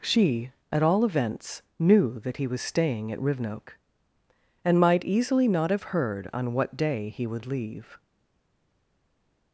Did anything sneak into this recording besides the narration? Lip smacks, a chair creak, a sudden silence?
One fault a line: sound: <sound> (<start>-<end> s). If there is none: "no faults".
no faults